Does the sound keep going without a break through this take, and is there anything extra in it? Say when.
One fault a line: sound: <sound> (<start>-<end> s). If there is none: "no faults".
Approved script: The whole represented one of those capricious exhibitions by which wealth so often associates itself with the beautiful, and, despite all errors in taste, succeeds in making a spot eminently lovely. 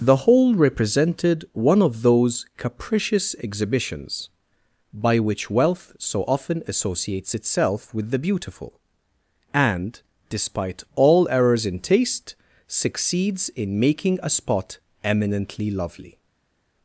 no faults